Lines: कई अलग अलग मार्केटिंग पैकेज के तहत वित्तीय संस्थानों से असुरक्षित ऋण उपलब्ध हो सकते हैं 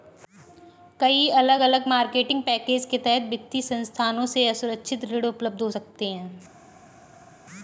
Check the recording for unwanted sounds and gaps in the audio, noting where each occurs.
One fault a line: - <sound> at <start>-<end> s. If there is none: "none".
none